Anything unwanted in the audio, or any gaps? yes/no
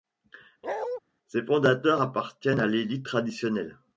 yes